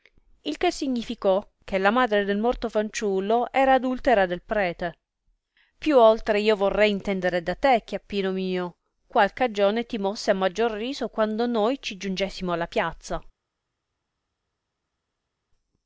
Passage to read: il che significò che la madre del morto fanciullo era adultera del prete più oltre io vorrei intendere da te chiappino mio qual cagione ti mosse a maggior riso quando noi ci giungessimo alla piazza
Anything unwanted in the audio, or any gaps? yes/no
no